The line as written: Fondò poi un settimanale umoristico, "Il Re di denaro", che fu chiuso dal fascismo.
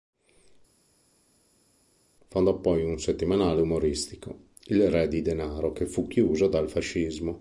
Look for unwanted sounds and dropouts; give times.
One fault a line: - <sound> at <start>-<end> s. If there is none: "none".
none